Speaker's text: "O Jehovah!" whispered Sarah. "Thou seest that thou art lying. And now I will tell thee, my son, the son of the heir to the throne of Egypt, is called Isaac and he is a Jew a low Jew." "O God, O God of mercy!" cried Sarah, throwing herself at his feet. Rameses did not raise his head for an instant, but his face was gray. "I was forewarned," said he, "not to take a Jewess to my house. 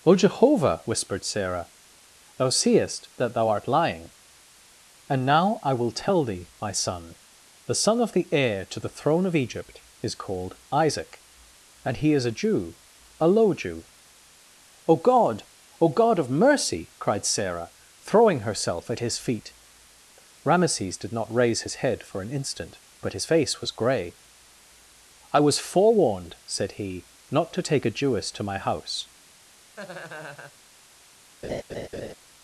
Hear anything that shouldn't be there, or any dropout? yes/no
yes